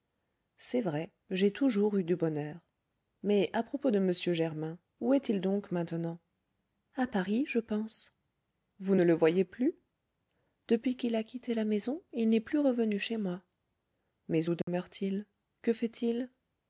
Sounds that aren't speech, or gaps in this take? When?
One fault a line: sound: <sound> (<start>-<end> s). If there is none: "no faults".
sound: dropout (14.6-14.7 s)